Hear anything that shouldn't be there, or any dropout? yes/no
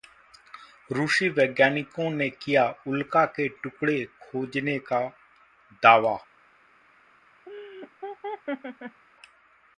yes